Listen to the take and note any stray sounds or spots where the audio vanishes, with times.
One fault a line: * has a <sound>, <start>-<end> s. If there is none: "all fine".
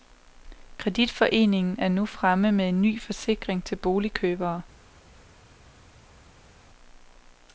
all fine